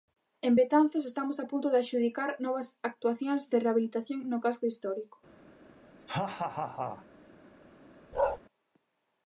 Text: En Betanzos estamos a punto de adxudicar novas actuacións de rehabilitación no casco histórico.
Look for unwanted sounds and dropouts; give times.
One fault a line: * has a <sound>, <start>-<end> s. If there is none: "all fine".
* has a laugh, 6.0-7.1 s
* has a bark, 8.1-8.4 s